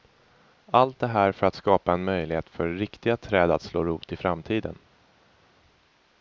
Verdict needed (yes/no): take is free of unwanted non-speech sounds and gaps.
yes